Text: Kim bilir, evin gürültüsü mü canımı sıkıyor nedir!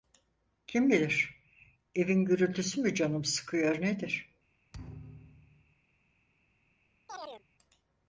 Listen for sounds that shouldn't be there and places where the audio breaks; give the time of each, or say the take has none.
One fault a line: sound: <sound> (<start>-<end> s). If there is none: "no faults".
sound: thud (4.7-5.8 s)
sound: chirp (7.1-7.4 s)